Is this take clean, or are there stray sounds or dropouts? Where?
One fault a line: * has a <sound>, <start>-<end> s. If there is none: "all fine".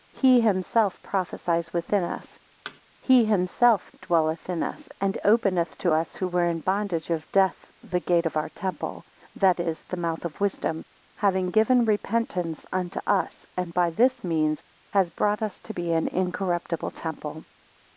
* has a thud, 2.6-2.8 s